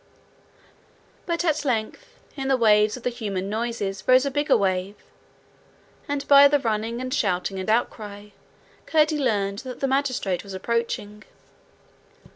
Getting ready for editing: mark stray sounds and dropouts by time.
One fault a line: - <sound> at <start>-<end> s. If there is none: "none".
none